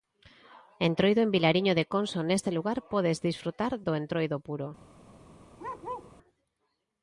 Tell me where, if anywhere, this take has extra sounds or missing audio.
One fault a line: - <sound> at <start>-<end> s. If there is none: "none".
- bark at 5.6-6.1 s